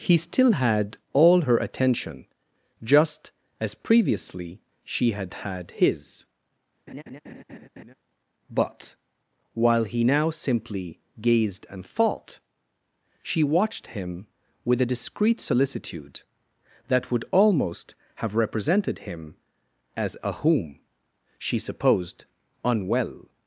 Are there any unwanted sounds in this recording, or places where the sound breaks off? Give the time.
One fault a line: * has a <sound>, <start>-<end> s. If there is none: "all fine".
* has a laugh, 6.9-7.9 s